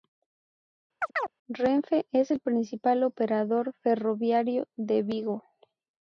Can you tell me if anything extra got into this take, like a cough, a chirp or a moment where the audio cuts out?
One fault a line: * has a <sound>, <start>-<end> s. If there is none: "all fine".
* has a chirp, 1.0-1.3 s